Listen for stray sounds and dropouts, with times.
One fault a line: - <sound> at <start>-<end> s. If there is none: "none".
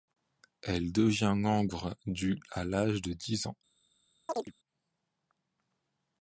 - chirp at 4.3-4.5 s